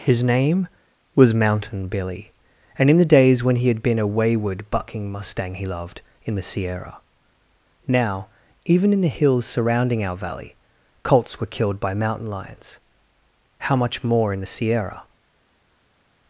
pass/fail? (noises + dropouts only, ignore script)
pass